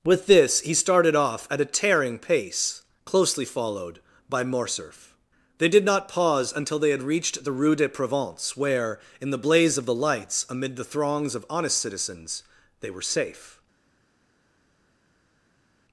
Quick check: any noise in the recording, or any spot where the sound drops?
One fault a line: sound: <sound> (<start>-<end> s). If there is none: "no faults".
no faults